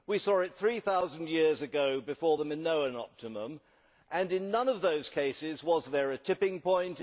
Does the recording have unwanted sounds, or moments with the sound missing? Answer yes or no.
no